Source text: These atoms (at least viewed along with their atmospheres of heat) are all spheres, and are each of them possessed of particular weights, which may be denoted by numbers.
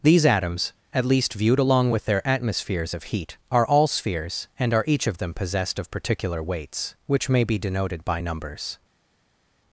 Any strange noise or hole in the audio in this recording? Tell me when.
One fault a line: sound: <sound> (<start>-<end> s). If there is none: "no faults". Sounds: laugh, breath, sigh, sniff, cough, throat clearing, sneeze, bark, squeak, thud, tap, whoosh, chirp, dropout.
no faults